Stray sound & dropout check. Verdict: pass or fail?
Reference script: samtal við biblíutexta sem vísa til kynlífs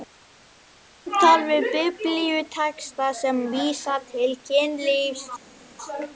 pass